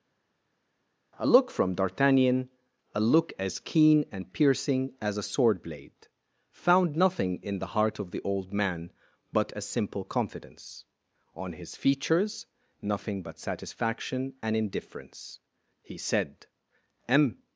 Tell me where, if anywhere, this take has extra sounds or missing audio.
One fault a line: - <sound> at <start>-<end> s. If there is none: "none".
none